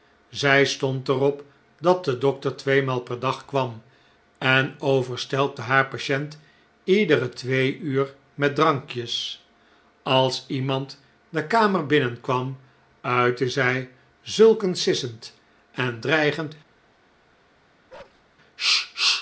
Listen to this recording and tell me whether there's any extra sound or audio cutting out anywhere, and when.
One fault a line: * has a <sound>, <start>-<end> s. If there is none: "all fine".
* has a bark, 17.9-18.2 s